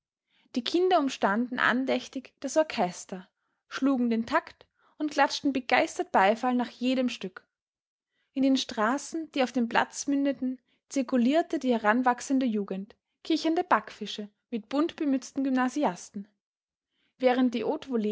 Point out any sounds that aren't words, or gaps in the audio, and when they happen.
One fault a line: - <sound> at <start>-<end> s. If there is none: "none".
none